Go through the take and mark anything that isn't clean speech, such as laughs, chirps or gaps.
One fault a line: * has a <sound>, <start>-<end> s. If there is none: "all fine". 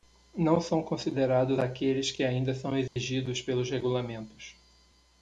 * has a dropout, 2.9-3.0 s